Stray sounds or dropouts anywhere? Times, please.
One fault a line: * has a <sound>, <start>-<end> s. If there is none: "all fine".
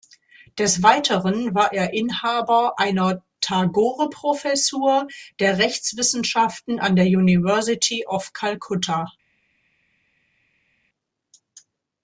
all fine